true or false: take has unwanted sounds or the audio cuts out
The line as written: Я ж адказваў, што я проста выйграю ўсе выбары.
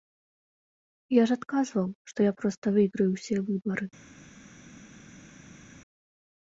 false